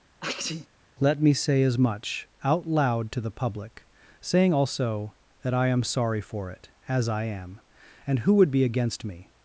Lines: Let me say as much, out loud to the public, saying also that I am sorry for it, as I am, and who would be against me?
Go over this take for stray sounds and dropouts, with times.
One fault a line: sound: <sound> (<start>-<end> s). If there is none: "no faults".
sound: sneeze (0.2-0.7 s)